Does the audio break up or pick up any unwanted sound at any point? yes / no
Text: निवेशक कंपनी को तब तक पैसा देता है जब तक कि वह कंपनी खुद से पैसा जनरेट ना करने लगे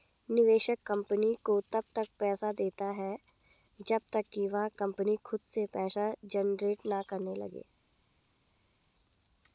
no